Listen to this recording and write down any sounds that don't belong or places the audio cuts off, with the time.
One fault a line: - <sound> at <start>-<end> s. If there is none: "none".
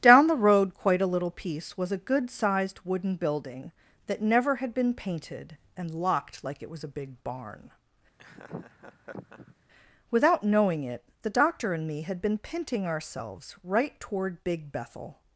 - laugh at 8.2-9.6 s